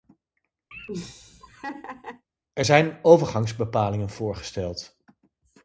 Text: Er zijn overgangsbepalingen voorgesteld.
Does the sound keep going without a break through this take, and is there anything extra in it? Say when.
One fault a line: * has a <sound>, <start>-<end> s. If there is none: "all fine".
* has a laugh, 0.7-2.2 s